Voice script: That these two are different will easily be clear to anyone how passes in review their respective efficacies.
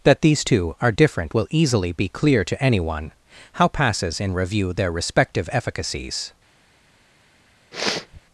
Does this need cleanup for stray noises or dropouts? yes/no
yes